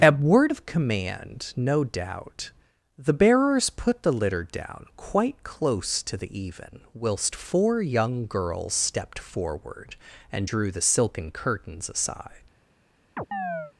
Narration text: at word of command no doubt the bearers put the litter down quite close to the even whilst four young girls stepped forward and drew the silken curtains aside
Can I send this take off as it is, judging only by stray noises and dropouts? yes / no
no